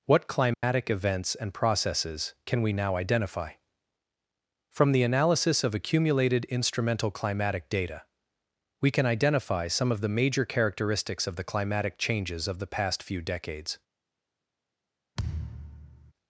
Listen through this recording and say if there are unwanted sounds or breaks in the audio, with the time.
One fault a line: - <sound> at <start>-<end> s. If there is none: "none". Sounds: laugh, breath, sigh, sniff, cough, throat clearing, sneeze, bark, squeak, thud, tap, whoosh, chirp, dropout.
- dropout at 0.5-0.6 s
- thud at 15.2-16.1 s